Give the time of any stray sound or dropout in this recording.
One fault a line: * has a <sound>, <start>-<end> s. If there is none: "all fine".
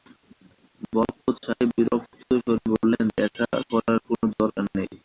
all fine